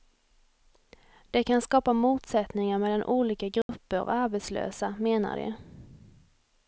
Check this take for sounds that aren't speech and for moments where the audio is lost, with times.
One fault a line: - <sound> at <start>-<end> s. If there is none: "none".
- dropout at 3.6-3.7 s